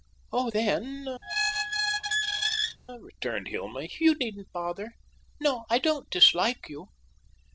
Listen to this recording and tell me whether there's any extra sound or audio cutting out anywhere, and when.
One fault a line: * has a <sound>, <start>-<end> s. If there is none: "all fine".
* has a squeak, 1.2-2.8 s